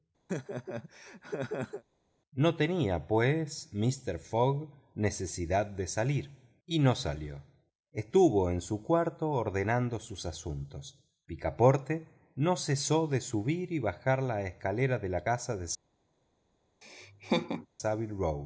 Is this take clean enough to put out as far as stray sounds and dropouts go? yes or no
no